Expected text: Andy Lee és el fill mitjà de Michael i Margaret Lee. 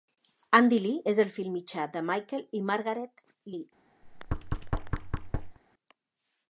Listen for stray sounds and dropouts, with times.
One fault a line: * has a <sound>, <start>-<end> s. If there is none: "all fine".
* has a thud, 4.0-5.6 s